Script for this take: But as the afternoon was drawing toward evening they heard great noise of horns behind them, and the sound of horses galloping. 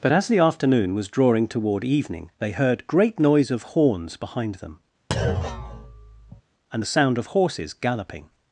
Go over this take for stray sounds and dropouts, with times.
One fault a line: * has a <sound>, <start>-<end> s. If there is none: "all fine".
* has a thud, 5.1-6.4 s